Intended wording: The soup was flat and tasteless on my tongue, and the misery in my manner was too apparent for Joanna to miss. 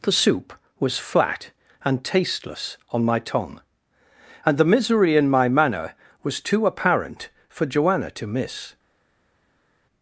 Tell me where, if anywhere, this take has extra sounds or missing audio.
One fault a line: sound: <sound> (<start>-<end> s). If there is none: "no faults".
no faults